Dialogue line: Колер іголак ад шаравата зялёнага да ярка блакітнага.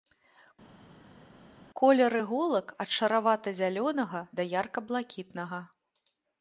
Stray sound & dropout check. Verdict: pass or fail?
pass